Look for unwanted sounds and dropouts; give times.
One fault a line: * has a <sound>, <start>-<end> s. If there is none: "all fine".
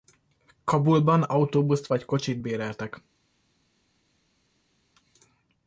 all fine